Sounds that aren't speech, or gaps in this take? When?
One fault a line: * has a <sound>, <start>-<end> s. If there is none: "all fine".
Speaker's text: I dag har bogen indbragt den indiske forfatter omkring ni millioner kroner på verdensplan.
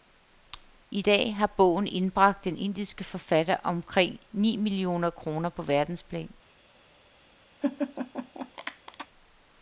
* has a laugh, 7.6-9.1 s